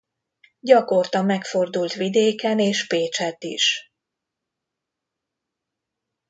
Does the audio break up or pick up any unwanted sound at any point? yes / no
no